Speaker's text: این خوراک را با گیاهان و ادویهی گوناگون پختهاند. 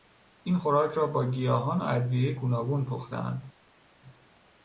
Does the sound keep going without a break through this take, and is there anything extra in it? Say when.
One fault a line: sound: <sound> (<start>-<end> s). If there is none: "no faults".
no faults